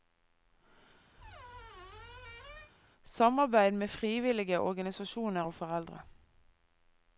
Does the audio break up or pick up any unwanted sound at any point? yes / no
yes